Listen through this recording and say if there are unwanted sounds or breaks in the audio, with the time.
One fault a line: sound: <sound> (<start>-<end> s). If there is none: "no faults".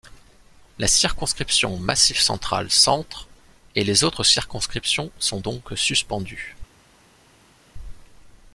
no faults